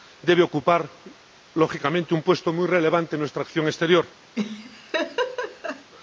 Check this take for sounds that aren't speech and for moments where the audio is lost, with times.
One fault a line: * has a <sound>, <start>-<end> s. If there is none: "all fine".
* has a laugh, 4.4-5.9 s